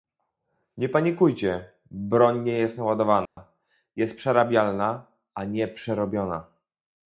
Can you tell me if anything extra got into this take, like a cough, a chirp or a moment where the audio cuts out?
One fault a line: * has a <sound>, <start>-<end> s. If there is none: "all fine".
* has a dropout, 3.3-3.4 s